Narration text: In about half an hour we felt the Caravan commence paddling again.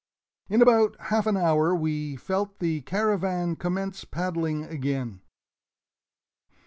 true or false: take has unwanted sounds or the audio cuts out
false